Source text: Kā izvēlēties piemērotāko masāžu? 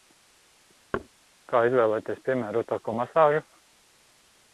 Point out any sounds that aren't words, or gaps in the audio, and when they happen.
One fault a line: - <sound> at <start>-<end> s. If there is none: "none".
- thud at 0.9-1.1 s